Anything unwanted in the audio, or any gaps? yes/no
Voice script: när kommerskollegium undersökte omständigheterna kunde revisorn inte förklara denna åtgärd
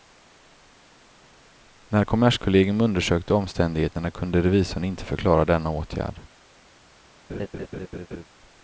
yes